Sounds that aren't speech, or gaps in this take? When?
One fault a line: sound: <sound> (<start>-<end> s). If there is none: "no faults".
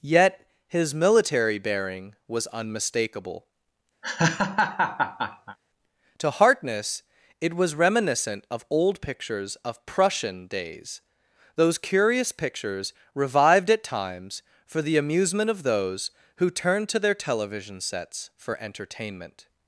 sound: laugh (4.0-5.6 s)